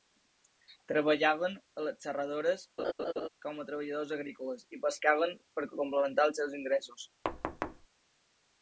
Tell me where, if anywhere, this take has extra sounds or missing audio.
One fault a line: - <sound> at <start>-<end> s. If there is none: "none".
- laugh at 2.8-3.3 s
- thud at 7.2-7.9 s